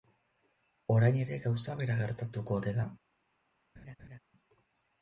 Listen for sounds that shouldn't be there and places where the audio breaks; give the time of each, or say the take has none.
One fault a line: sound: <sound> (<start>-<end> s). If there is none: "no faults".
sound: laugh (3.8-4.2 s)